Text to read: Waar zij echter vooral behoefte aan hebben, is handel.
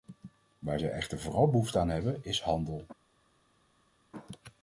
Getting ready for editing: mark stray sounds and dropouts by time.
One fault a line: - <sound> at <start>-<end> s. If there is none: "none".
none